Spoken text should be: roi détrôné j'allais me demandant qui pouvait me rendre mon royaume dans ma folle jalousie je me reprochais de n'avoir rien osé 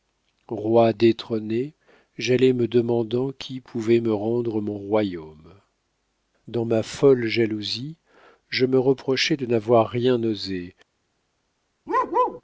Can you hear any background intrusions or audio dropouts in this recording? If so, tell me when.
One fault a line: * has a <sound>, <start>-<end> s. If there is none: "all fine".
* has a bark, 11.9-12.4 s